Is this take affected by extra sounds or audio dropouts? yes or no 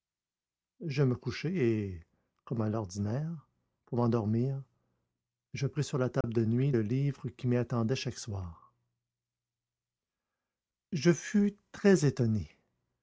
yes